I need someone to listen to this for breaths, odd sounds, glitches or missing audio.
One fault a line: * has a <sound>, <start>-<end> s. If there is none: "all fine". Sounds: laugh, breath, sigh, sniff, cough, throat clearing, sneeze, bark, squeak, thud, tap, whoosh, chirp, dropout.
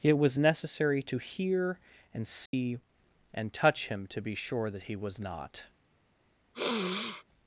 * has a dropout, 2.5-2.5 s
* has a sniff, 6.5-7.2 s